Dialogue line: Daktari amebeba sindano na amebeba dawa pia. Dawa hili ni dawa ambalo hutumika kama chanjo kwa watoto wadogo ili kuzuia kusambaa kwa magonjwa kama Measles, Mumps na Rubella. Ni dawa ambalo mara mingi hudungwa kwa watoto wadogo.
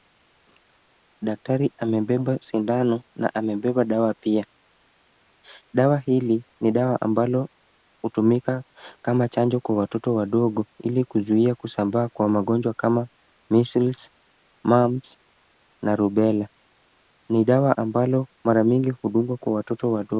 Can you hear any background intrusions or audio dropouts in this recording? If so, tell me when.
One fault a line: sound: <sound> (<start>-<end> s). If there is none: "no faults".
no faults